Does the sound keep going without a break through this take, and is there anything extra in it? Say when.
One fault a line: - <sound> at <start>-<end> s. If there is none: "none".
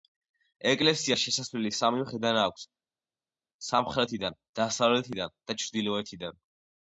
none